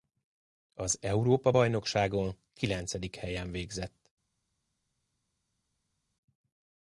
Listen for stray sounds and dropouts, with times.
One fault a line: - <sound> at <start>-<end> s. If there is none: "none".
none